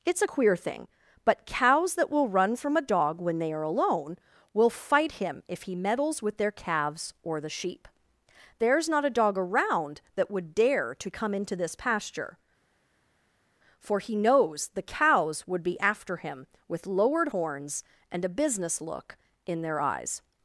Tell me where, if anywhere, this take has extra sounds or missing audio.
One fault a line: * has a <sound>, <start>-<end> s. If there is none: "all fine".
all fine